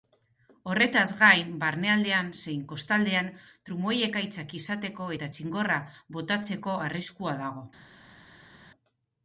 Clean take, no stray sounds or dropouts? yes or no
yes